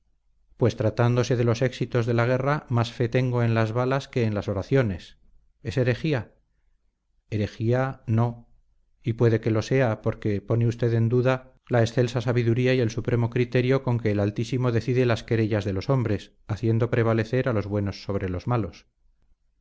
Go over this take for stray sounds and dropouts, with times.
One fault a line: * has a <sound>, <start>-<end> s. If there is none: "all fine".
all fine